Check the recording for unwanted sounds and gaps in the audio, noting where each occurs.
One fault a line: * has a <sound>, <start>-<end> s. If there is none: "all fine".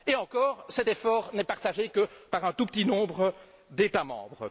all fine